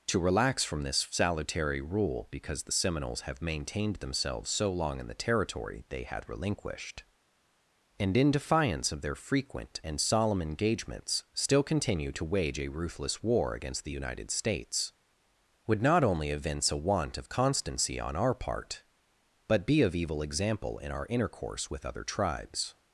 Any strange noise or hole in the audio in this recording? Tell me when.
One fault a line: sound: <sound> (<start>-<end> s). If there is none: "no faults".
no faults